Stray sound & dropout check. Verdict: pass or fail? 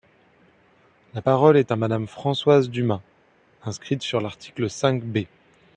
pass